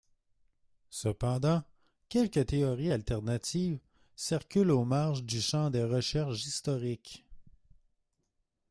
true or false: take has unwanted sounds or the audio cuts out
false